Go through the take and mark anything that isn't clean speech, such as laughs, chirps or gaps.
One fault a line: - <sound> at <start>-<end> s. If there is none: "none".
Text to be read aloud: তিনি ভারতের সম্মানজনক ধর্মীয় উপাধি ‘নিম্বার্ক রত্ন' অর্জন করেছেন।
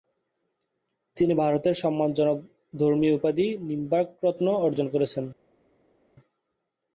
none